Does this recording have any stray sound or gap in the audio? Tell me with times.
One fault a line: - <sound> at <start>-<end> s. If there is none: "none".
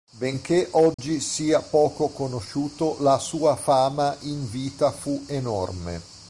- dropout at 0.9-1.0 s